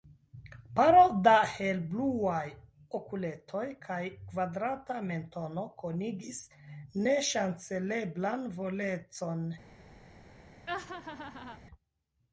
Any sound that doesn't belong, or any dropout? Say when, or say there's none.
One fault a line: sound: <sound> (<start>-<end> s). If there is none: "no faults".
sound: laugh (10.7-11.6 s)